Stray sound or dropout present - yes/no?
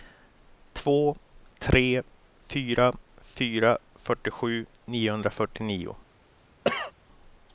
yes